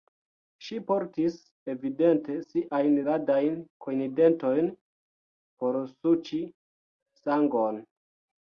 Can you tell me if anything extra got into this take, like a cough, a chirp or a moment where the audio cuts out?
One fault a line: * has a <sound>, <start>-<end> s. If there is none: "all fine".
all fine